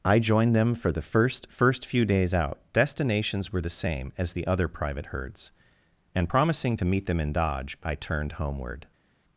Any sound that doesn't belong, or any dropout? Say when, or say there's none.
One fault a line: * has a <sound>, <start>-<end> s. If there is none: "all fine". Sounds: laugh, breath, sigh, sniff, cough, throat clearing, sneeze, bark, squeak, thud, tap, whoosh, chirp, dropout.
all fine